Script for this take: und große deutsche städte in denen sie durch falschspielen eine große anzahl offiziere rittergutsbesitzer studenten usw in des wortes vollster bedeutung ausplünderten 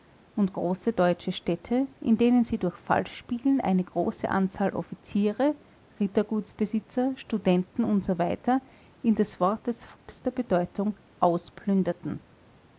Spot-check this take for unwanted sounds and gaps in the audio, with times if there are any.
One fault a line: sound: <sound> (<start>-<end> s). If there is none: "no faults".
sound: dropout (10.0-10.1 s)